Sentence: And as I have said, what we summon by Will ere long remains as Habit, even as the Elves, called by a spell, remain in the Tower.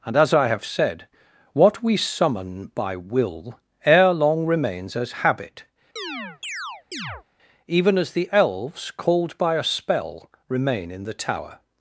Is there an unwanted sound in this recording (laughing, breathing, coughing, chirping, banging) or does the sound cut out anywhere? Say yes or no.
yes